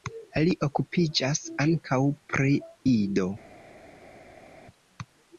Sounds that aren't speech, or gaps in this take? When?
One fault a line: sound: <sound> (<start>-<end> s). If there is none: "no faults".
no faults